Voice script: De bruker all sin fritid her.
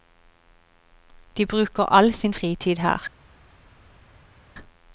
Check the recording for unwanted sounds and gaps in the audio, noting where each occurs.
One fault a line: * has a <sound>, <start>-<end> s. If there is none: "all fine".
all fine